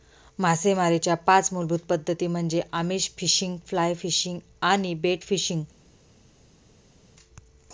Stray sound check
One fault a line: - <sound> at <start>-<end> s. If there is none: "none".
none